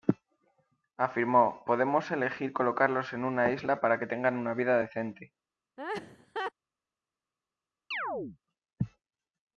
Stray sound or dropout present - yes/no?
yes